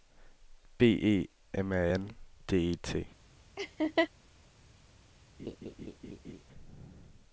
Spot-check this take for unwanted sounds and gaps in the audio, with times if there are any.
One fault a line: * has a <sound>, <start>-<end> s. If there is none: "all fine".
* has a laugh, 3.6-4.1 s
* has a laugh, 5.4-6.4 s